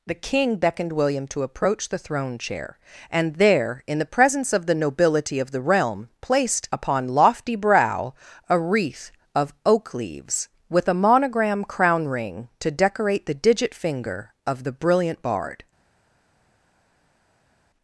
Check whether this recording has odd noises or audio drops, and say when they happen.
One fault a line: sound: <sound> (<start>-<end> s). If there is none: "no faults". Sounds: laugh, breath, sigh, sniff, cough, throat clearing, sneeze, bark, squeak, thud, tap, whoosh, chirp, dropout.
no faults